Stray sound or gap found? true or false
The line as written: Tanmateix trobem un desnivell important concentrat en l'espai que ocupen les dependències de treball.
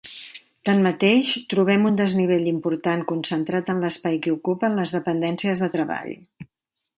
false